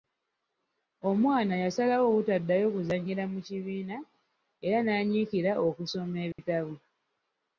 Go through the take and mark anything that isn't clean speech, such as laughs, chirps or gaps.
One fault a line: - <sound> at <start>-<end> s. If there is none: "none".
- dropout at 6.3-6.4 s